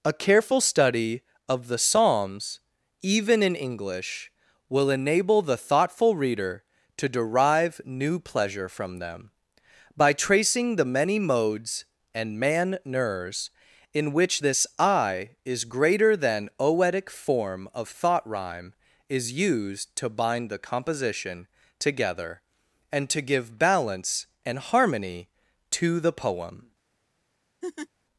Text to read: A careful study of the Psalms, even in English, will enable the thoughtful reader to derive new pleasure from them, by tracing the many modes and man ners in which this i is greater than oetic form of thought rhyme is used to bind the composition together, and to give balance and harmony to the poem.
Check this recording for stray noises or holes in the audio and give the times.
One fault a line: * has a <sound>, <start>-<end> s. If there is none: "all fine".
* has a laugh, 27.6-27.9 s